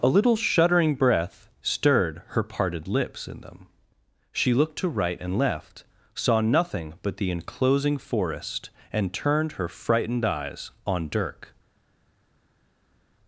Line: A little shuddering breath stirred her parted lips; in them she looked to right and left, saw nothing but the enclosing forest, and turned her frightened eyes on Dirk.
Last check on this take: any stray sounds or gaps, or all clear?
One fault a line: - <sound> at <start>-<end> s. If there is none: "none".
none